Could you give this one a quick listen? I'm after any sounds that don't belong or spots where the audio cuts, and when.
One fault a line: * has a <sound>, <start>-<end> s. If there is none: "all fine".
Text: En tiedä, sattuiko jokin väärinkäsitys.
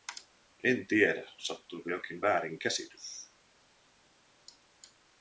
all fine